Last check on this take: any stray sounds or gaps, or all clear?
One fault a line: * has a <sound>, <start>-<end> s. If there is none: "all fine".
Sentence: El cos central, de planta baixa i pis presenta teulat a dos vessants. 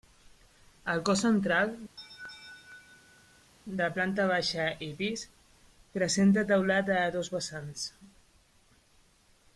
* has a laugh, 2.0-3.5 s